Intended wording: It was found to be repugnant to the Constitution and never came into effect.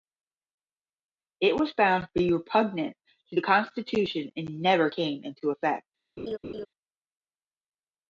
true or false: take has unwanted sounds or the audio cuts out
true